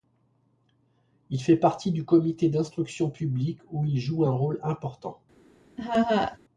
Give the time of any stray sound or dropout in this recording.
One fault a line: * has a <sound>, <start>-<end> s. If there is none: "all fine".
* has a laugh, 5.8-6.4 s